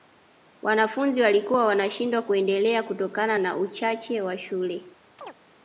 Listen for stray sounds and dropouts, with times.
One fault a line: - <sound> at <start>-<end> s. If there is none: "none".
- chirp at 5.2-5.3 s